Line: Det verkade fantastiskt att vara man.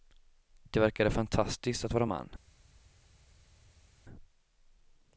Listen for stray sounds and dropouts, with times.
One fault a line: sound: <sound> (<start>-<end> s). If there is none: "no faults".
no faults